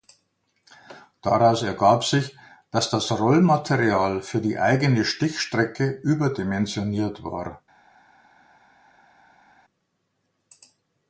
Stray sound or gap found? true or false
false